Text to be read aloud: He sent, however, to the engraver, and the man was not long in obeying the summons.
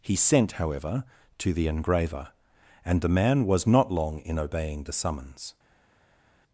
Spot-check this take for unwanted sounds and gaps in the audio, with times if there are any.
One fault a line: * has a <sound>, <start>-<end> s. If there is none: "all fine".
all fine